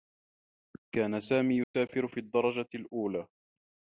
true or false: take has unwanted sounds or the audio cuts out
true